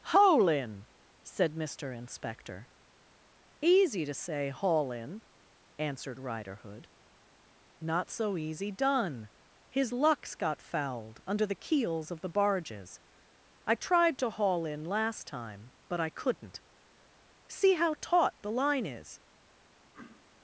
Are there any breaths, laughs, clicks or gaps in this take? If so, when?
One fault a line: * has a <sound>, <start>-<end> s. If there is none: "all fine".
* has a throat clearing, 19.9-20.3 s